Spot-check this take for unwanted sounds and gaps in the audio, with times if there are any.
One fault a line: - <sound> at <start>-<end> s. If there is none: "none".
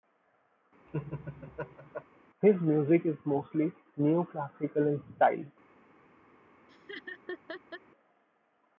- laugh at 0.9-2.0 s
- laugh at 6.7-7.8 s